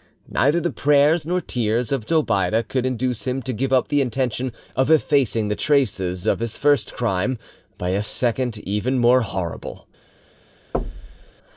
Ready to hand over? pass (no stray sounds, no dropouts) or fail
fail